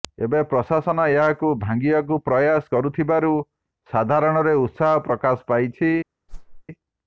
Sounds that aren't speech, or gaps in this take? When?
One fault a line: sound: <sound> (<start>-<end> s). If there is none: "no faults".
sound: whoosh (6.3-6.6 s)